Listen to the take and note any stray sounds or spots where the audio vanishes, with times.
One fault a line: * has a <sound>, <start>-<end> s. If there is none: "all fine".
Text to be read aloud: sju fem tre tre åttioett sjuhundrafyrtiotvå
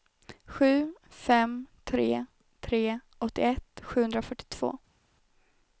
all fine